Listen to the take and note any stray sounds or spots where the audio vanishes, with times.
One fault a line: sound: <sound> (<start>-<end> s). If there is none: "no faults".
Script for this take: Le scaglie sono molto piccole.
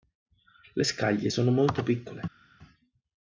no faults